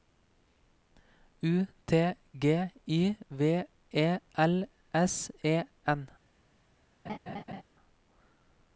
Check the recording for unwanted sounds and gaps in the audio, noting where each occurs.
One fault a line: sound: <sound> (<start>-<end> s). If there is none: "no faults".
sound: laugh (7.1-7.6 s)